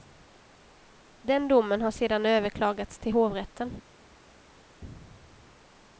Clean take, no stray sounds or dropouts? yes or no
yes